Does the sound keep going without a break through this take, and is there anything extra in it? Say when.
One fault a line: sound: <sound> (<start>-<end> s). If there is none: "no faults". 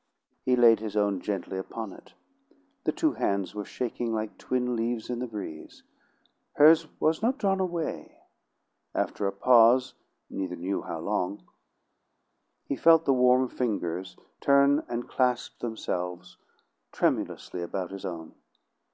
no faults